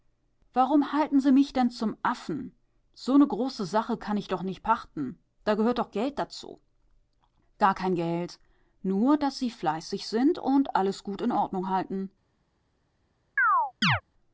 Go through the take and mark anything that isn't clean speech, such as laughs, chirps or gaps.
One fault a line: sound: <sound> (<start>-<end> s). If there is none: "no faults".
sound: chirp (13.4-14.0 s)